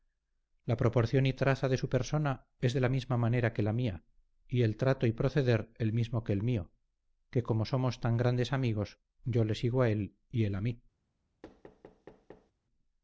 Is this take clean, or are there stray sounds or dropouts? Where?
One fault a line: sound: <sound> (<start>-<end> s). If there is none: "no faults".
sound: thud (11.4-12.5 s)